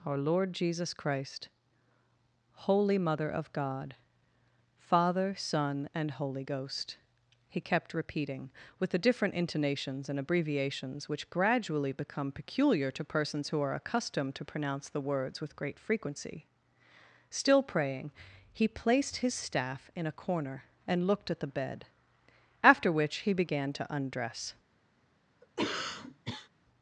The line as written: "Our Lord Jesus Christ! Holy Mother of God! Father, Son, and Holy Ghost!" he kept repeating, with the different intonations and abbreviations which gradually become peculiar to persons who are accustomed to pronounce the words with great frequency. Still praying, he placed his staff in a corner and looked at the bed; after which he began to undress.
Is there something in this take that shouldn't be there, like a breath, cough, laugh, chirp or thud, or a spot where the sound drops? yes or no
yes